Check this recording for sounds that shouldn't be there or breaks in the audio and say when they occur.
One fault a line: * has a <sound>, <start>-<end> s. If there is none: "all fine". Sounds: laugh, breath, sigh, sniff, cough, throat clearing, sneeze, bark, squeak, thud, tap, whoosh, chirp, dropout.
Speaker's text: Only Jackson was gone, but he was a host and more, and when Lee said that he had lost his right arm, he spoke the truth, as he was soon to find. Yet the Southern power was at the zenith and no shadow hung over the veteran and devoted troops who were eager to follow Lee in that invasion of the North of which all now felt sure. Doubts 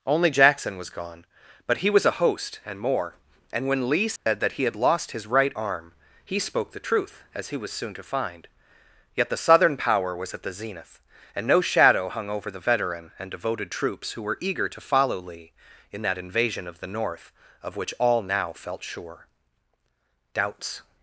* has a dropout, 4.2-4.3 s